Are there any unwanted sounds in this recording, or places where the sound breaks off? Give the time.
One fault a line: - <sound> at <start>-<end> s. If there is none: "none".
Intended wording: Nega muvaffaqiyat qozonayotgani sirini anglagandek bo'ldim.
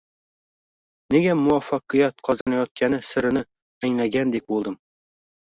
- dropout at 2.4-2.5 s